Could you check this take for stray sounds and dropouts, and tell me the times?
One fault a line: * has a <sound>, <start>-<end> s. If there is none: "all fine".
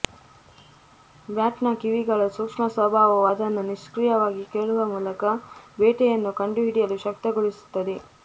all fine